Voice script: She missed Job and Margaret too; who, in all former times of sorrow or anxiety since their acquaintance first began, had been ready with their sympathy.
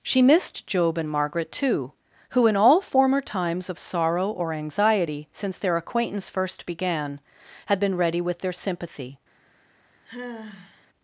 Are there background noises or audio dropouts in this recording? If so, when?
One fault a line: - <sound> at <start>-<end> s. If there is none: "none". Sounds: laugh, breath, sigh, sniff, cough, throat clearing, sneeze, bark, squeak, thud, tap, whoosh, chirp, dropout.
- sigh at 10.1-10.9 s